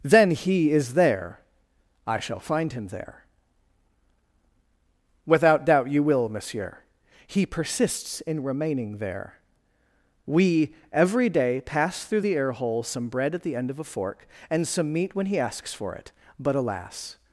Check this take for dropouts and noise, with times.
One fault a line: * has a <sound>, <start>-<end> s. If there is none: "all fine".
all fine